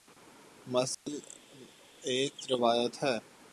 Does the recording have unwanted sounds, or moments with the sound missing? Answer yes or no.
yes